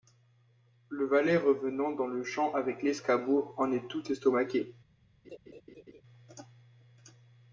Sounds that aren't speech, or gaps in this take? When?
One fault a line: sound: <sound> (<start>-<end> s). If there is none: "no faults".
sound: laugh (5.2-6.0 s)